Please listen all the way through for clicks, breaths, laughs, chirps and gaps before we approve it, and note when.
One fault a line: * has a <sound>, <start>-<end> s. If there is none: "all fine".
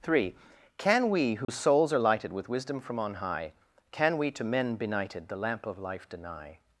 * has a dropout, 1.4-1.5 s